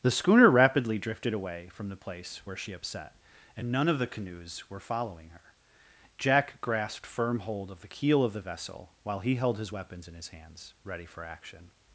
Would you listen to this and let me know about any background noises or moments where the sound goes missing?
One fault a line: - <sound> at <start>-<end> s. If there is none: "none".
none